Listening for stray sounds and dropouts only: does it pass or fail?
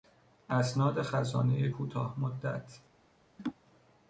fail